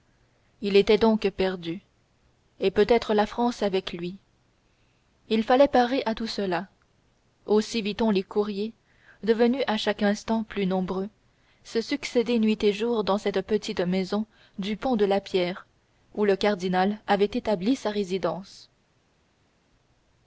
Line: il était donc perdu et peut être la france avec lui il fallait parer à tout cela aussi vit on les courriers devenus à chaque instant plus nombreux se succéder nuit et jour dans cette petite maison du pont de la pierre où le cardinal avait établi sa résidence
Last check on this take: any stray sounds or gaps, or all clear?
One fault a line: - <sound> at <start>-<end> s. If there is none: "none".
none